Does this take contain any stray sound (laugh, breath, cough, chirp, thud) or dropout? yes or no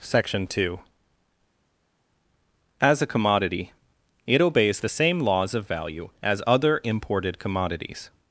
no